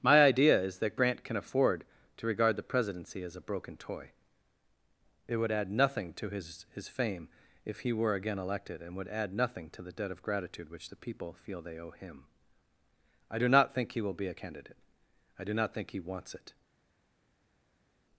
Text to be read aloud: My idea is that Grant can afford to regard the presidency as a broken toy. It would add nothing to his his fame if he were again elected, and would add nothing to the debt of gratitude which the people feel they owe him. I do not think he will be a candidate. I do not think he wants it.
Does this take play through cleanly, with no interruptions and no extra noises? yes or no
yes